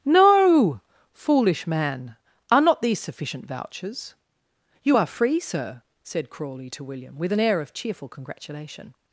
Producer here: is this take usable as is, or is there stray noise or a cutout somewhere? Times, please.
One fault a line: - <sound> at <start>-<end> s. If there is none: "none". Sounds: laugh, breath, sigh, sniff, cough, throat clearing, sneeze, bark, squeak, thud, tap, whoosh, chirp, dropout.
none